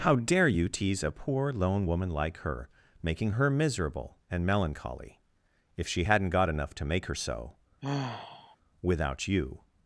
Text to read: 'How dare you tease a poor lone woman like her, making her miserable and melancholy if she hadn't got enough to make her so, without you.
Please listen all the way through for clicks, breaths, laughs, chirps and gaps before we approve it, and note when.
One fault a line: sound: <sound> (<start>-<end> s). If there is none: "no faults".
sound: sigh (7.8-8.6 s)